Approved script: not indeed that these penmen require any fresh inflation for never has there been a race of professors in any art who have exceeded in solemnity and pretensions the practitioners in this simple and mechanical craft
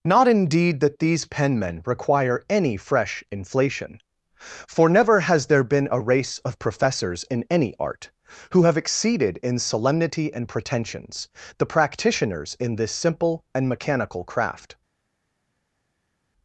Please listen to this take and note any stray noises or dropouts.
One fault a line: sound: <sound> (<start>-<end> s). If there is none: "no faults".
no faults